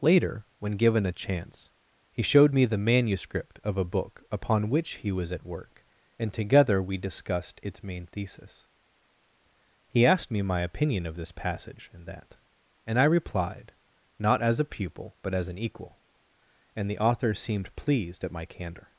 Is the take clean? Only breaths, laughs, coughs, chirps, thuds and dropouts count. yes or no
yes